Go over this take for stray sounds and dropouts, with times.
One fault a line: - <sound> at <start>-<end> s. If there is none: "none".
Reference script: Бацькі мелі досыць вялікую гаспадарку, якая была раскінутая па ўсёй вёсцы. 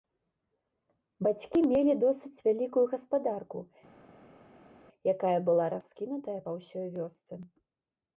none